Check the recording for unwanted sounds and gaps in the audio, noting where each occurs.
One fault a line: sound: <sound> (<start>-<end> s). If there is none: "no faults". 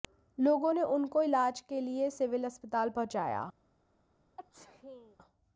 sound: sneeze (4.4-5.2 s)